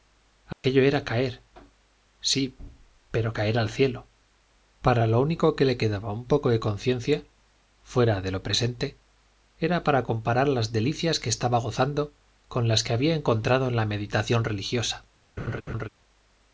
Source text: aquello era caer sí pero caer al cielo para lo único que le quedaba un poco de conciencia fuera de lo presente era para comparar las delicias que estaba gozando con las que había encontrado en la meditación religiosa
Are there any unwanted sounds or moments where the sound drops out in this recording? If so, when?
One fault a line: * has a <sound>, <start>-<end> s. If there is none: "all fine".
* has a dropout, 0.5-0.6 s
* has a laugh, 15.4-15.9 s